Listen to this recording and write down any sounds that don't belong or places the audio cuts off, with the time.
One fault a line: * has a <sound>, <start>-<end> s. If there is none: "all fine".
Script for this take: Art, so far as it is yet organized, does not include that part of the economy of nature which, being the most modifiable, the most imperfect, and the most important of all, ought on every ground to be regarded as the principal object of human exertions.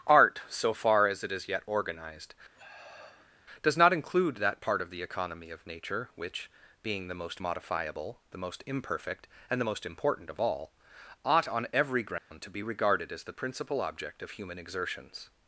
* has a sniff, 2.5-3.4 s
* has a dropout, 12.2-12.3 s